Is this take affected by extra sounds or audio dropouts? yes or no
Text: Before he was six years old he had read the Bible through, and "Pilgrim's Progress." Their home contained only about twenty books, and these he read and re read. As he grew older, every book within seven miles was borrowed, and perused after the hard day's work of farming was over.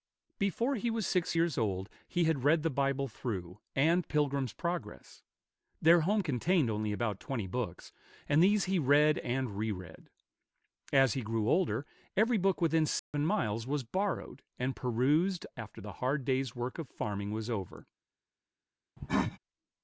yes